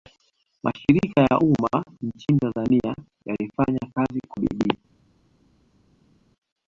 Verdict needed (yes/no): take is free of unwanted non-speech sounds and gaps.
yes